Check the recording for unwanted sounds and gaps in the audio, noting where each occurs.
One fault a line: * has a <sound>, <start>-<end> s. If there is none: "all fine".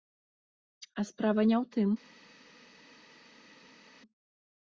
all fine